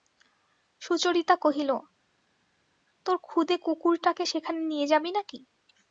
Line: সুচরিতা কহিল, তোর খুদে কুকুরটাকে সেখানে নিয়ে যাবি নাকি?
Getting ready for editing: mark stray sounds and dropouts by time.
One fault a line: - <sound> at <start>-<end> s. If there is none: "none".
none